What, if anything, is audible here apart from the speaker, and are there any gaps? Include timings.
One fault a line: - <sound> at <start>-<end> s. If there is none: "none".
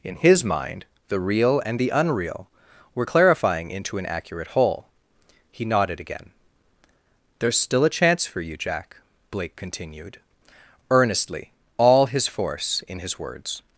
none